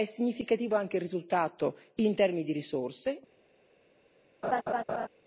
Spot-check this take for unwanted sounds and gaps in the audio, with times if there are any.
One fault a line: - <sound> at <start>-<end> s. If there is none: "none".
- laugh at 4.4-5.1 s